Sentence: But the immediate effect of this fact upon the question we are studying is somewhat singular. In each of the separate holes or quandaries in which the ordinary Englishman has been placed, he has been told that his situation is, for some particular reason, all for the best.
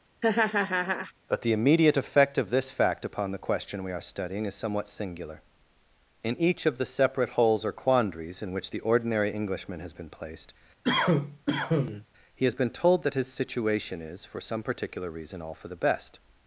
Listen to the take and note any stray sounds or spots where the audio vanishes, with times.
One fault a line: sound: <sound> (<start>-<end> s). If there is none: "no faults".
sound: laugh (0.2-1.1 s)
sound: cough (10.8-12.1 s)